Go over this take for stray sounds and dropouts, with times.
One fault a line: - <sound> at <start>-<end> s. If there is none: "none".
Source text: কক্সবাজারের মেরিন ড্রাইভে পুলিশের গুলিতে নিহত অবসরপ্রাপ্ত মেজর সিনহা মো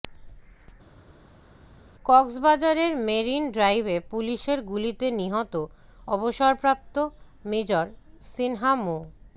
none